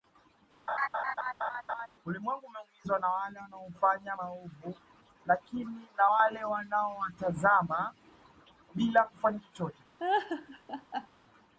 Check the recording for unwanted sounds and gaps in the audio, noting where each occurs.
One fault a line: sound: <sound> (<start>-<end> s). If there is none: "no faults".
sound: laugh (0.7-1.9 s)
sound: laugh (10.0-11.1 s)